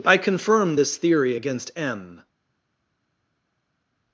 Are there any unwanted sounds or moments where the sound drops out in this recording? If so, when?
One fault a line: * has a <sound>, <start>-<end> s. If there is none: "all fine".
all fine